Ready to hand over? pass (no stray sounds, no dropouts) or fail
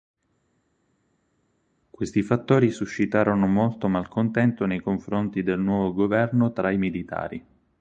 pass